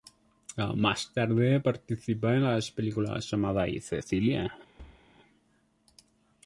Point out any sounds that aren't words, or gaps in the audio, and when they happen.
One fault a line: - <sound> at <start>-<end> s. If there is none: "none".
- thud at 4.8-5.1 s